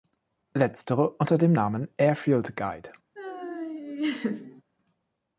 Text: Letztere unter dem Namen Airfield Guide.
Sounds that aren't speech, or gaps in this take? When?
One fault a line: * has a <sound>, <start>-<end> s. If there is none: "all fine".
* has a laugh, 3.2-4.6 s